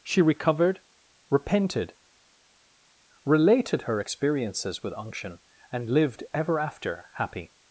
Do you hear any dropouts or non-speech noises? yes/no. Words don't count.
no